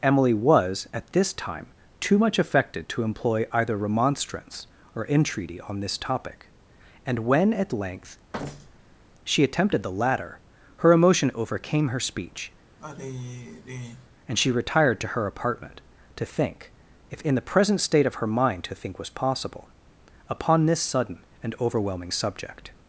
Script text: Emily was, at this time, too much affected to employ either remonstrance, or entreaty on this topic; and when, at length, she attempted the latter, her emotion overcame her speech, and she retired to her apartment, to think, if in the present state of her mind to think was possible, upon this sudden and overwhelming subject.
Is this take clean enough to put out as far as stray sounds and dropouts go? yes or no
no